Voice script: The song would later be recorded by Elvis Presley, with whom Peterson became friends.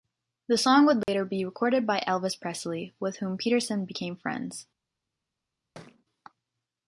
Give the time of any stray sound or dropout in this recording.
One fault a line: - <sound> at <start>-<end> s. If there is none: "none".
- dropout at 1.0-1.1 s
- thud at 5.7-6.0 s